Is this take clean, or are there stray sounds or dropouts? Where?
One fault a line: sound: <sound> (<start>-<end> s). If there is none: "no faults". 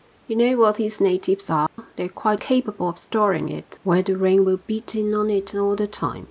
sound: dropout (1.7-1.8 s)